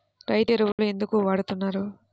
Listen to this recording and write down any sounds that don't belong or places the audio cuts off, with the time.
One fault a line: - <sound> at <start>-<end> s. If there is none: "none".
- dropout at 0.7-0.8 s